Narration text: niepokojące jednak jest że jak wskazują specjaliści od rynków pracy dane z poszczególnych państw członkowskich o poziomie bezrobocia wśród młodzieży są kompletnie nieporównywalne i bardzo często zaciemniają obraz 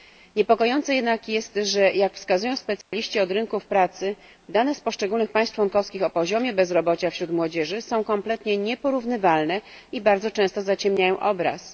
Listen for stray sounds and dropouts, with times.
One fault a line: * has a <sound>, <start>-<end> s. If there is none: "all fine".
* has a dropout, 2.8-2.9 s